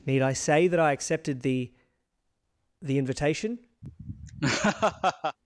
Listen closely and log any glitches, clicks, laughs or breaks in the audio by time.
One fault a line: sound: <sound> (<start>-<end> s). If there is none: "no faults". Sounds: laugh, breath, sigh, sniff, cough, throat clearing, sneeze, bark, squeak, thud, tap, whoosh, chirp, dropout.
sound: laugh (3.8-5.4 s)